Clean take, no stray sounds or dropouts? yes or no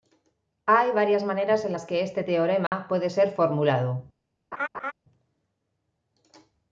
no